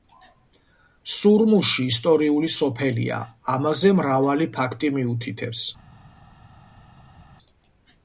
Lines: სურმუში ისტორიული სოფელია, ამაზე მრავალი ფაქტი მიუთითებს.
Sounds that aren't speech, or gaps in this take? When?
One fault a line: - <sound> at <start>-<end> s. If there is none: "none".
none